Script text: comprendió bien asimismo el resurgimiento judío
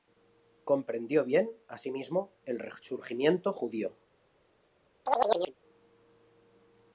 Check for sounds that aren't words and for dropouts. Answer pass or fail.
fail